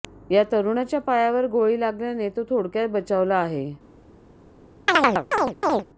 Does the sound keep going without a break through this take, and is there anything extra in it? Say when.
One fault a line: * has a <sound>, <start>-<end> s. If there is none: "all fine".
* has a chirp, 4.9-5.9 s